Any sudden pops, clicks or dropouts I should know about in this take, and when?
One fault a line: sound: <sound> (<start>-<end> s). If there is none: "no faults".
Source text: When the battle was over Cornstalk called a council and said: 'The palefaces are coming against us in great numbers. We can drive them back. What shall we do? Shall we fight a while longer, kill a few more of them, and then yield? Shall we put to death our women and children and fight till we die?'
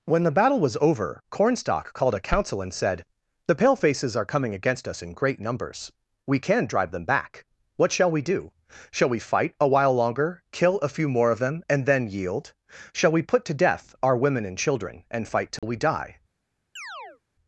sound: dropout (15.6-15.6 s)
sound: chirp (16.8-17.2 s)